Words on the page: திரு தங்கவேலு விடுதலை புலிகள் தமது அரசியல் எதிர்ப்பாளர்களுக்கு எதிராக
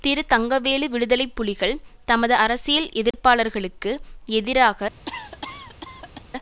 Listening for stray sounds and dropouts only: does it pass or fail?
fail